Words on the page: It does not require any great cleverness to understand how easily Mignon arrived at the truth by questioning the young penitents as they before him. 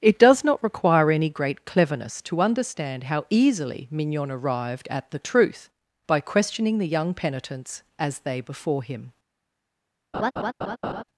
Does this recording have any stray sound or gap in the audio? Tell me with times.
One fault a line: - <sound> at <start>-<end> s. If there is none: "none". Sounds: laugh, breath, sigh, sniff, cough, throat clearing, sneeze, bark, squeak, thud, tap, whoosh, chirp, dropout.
- laugh at 10.1-11.0 s